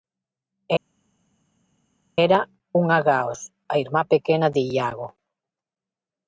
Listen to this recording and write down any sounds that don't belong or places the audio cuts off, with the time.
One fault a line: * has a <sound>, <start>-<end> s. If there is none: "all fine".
all fine